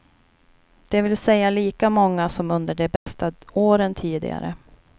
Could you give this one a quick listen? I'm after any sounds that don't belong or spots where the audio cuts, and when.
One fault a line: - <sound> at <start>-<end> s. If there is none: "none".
- dropout at 3.0-3.1 s